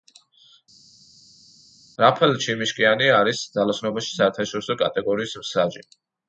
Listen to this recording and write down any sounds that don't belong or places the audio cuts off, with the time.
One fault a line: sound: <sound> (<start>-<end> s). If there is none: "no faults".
no faults